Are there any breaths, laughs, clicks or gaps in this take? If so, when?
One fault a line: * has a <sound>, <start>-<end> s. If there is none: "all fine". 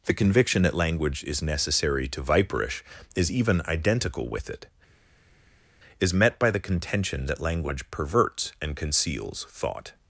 all fine